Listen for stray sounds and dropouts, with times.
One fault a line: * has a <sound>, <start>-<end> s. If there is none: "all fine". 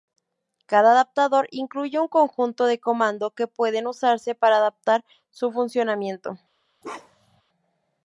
* has a bark, 6.8-7.4 s